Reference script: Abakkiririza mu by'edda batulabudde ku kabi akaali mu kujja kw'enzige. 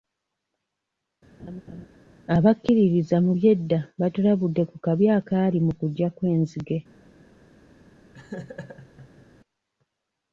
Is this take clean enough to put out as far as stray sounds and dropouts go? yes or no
no